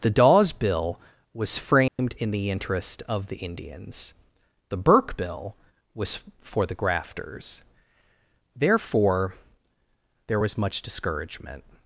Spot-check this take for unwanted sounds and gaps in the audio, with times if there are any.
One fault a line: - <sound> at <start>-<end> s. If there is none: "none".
- dropout at 1.9-2.0 s